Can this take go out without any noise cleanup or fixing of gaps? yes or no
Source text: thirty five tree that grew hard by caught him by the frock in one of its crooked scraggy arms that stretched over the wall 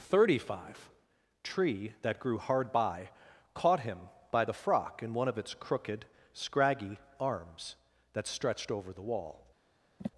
no